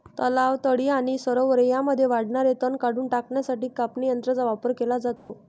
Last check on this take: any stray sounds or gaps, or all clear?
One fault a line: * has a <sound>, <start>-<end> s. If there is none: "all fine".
* has a dropout, 5.2-5.3 s